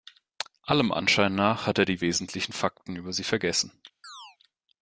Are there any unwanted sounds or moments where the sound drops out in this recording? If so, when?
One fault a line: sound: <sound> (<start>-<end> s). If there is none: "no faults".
sound: chirp (4.0-4.4 s)